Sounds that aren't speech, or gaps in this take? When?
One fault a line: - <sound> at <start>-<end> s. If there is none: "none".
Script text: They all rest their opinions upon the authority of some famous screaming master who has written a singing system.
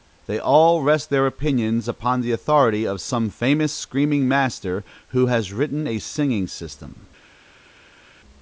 none